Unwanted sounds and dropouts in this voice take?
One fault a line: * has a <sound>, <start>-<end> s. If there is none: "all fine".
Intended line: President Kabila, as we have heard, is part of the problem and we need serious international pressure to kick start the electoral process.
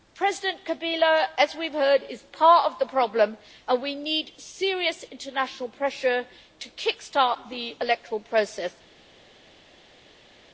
all fine